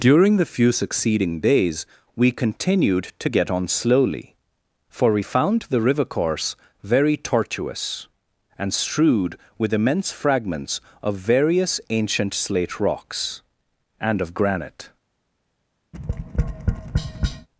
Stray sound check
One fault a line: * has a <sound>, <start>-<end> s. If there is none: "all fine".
* has a tap, 15.9-17.5 s